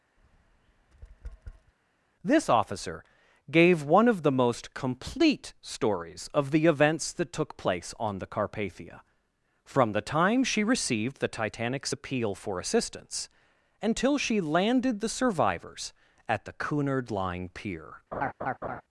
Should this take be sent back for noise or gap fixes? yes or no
yes